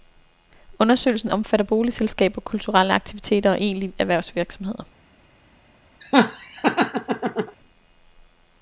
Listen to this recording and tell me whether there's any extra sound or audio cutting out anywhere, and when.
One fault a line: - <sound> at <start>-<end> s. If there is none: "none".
- laugh at 6.0-7.6 s